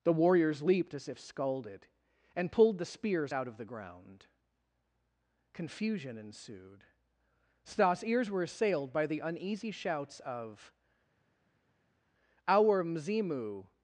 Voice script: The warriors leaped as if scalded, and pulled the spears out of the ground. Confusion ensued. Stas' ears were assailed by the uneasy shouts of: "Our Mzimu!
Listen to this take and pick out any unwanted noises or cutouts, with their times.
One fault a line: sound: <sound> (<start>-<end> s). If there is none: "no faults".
no faults